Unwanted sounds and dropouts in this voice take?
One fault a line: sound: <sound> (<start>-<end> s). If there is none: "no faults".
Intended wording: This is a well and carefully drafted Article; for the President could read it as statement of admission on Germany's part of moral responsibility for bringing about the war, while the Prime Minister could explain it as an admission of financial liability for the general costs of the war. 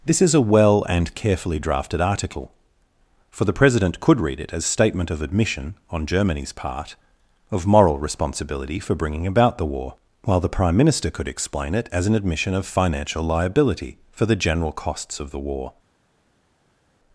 no faults